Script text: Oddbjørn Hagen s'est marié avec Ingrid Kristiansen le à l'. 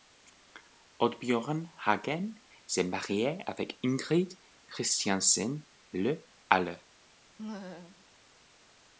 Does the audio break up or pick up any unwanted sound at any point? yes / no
yes